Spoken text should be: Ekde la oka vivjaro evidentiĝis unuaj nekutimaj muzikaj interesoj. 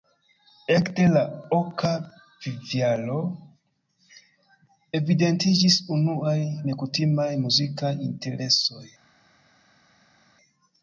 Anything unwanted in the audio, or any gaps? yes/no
no